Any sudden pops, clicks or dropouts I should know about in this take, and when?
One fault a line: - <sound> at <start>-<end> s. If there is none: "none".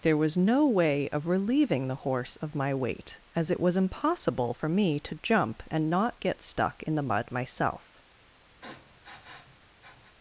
- sniff at 8.6-10.2 s